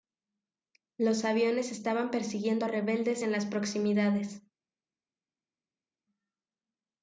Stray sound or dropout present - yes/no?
no